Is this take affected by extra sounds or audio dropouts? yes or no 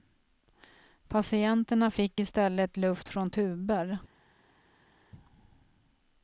no